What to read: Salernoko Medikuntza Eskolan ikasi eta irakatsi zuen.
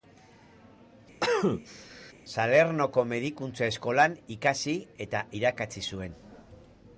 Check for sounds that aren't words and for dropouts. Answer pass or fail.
fail